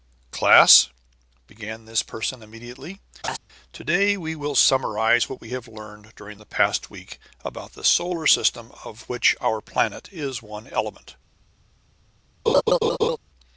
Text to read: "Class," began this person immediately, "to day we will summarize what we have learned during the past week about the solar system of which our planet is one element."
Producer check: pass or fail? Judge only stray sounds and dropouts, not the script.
fail